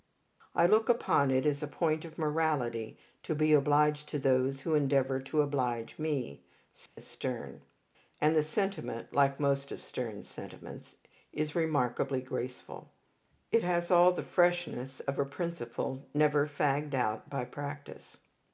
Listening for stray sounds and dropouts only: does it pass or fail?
fail